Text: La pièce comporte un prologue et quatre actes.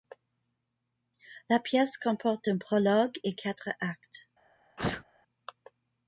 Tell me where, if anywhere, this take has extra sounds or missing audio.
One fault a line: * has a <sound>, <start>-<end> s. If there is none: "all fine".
* has a sneeze, 4.8-5.0 s